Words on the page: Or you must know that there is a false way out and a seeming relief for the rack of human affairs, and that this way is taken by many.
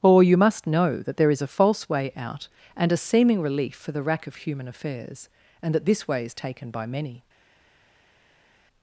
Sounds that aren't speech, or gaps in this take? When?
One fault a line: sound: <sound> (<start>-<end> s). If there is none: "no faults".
no faults